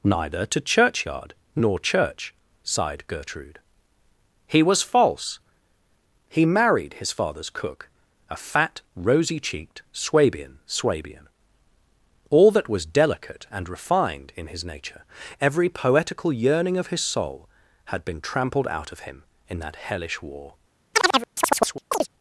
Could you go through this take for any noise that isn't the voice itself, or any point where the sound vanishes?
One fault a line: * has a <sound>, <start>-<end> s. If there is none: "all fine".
* has a chirp, 20.9-22.1 s